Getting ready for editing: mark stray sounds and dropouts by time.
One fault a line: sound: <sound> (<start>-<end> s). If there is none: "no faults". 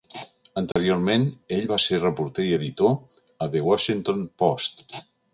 sound: dropout (0.7-0.8 s)